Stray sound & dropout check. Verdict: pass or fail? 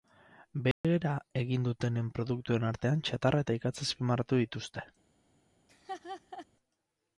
fail